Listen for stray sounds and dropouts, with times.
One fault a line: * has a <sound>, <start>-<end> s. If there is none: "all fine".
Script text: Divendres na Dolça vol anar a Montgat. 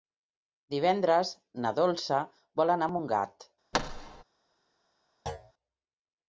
* has a thud, 3.7-4.2 s
* has a thud, 5.3-5.5 s